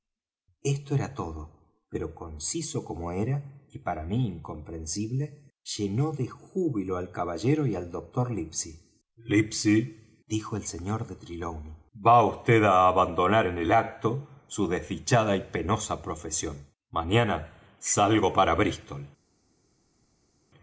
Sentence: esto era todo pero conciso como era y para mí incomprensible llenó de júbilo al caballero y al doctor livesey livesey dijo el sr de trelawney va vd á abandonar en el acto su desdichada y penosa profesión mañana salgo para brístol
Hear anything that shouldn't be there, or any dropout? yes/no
no